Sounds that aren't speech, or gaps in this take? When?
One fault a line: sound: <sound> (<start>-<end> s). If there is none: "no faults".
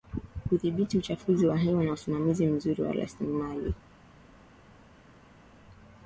no faults